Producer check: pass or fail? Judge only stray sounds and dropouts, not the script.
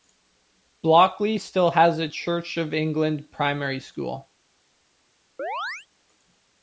fail